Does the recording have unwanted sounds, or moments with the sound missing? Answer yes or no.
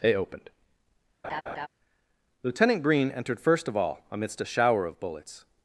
yes